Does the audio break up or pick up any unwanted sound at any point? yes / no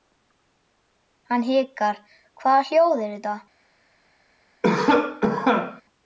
yes